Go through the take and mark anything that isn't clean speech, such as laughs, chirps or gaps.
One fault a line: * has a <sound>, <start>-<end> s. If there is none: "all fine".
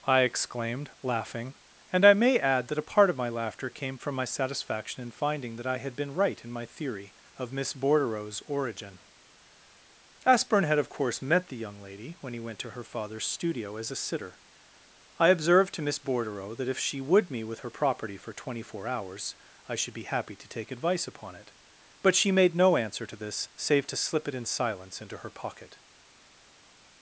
all fine